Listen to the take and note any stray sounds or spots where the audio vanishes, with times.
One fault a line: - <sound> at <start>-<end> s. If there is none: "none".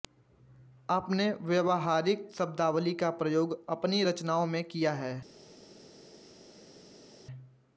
none